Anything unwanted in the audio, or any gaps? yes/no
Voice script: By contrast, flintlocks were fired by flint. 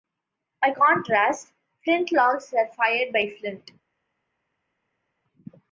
no